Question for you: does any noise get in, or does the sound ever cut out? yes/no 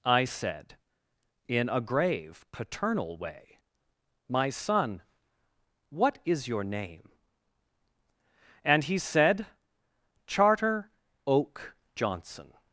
no